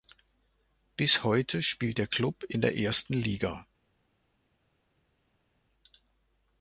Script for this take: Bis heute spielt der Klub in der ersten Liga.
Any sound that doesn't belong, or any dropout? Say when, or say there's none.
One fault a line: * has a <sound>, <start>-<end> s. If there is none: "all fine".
all fine